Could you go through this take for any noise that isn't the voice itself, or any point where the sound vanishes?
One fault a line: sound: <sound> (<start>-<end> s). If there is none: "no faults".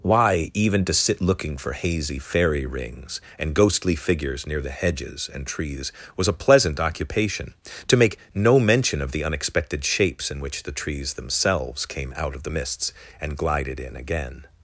no faults